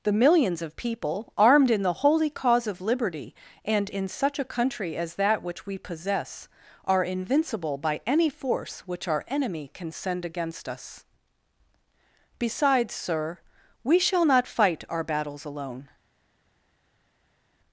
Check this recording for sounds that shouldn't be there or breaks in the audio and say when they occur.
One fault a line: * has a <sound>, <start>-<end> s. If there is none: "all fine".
all fine